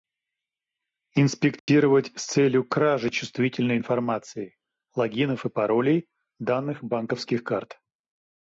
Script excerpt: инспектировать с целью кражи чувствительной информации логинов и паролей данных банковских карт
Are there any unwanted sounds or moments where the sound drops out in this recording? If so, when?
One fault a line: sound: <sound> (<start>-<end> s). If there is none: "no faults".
sound: dropout (1.6-1.7 s)